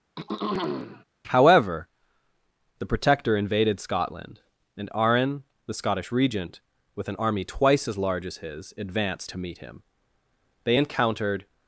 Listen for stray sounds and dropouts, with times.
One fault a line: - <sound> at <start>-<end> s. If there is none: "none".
- throat clearing at 0.2-1.1 s